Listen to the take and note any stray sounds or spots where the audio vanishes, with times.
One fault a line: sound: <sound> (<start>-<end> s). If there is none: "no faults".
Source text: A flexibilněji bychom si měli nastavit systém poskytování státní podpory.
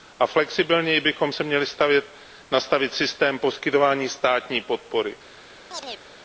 sound: chirp (5.7-6.0 s)